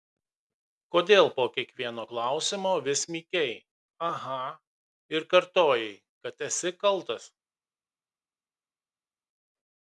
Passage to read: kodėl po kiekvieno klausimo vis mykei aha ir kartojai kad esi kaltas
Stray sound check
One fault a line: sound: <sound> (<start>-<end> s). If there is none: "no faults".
no faults